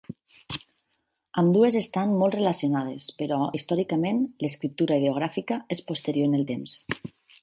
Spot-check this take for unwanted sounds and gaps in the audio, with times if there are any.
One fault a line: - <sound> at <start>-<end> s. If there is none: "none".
none